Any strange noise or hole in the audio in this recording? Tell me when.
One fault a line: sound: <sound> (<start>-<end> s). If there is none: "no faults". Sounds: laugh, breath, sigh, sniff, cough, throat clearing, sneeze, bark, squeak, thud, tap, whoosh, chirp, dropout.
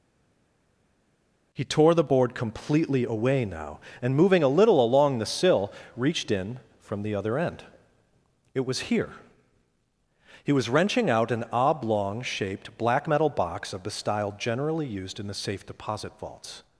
no faults